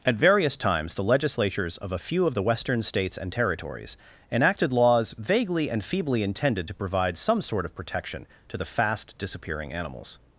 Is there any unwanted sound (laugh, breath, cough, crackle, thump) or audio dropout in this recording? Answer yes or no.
no